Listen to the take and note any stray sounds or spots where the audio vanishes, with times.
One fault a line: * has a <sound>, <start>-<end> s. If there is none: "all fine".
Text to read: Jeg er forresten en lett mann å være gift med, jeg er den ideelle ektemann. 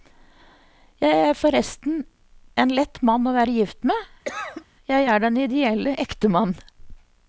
* has a cough, 4.3-4.7 s